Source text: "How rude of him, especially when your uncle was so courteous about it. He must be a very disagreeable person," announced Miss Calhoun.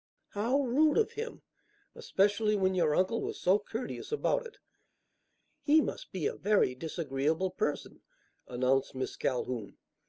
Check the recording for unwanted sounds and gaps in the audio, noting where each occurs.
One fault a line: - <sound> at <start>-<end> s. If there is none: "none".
none